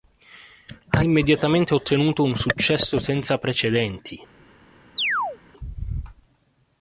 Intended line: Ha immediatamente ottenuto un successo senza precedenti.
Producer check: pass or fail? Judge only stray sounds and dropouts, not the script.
fail